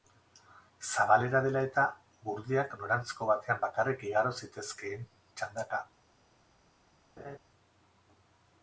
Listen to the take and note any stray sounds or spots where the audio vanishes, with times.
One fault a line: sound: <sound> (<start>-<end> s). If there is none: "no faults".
sound: laugh (7.2-7.4 s)